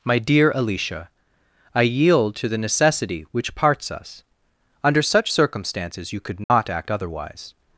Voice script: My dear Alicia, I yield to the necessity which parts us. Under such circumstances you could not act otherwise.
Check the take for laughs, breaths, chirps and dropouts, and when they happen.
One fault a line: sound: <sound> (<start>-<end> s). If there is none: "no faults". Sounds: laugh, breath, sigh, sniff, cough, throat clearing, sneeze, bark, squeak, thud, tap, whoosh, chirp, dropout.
sound: dropout (6.4-6.5 s)